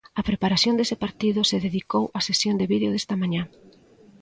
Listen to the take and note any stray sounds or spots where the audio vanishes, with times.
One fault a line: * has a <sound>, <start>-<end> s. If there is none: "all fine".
all fine